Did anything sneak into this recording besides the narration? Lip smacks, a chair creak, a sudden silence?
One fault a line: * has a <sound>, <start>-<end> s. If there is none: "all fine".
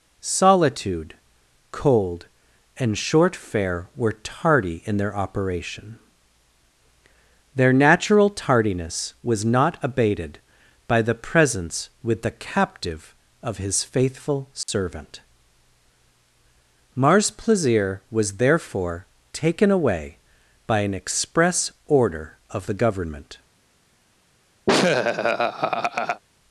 * has a dropout, 14.6-14.7 s
* has a laugh, 24.7-26.2 s